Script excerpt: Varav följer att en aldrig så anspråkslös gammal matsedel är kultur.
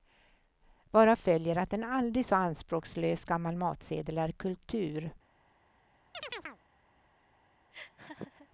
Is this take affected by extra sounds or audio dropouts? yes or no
yes